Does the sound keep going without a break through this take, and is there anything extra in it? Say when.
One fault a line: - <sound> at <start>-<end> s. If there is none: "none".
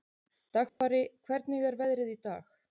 - dropout at 0.7-0.8 s